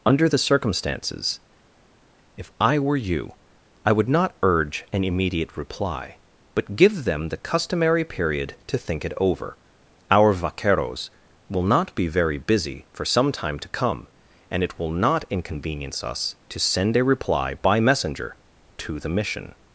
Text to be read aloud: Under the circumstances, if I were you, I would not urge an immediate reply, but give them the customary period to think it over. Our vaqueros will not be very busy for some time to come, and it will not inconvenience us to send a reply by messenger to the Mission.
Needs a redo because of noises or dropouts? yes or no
no